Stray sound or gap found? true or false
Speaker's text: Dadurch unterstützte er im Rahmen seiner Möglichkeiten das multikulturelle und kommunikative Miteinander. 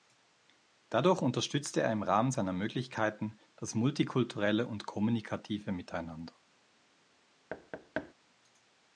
true